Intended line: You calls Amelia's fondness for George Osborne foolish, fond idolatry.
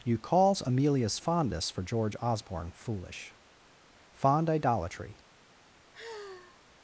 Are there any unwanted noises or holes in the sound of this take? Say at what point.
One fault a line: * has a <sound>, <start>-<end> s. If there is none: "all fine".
* has a sigh, 5.9-6.6 s